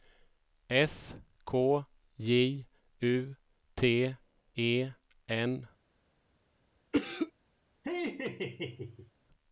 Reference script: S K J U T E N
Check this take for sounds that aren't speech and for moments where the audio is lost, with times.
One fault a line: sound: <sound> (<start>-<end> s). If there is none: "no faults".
sound: cough (6.9-7.3 s)
sound: laugh (7.8-9.1 s)